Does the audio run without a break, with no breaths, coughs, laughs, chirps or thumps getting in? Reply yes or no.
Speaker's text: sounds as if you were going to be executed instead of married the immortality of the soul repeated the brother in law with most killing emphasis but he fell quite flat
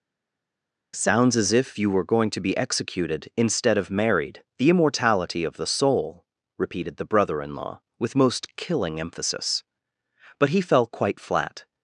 yes